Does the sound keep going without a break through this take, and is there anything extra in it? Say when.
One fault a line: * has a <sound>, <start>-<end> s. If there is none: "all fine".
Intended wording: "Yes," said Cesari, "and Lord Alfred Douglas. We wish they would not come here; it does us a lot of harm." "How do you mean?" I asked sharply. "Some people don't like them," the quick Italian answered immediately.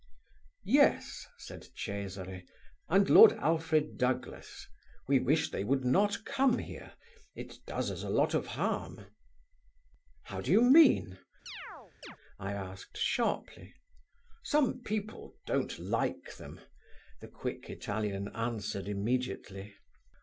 * has a chirp, 11.5-12.2 s